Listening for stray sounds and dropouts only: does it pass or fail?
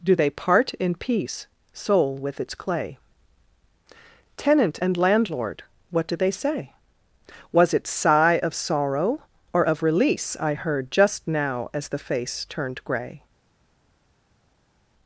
pass